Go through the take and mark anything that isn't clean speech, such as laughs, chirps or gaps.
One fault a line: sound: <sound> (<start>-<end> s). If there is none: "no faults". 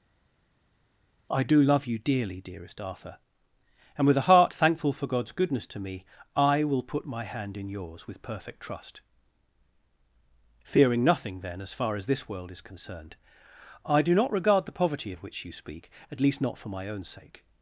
no faults